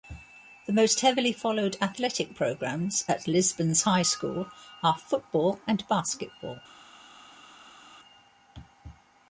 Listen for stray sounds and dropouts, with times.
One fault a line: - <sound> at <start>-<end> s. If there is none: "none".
none